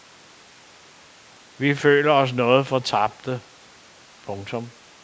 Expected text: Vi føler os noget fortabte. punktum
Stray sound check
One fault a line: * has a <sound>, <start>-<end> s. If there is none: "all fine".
all fine